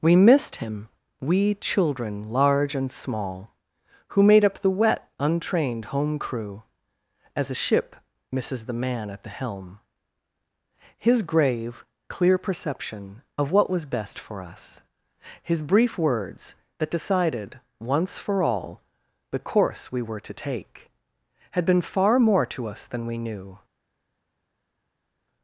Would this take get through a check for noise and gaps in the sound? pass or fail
pass